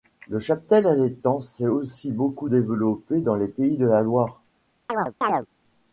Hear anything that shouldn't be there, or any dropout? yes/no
yes